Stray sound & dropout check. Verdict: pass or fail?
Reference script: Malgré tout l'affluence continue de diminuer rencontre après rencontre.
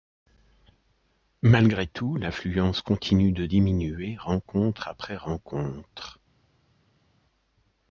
pass